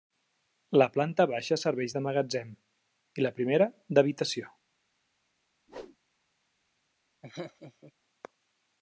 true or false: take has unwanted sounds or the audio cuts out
true